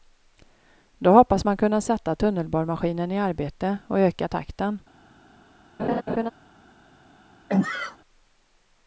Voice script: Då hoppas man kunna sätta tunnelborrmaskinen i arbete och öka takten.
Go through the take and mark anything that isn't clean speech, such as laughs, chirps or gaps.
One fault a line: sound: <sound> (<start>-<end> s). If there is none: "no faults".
sound: laugh (5.8-6.3 s)
sound: sneeze (7.5-8.0 s)